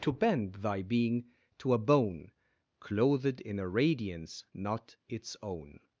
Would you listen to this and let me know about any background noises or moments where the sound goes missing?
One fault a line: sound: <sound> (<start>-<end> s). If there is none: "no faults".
no faults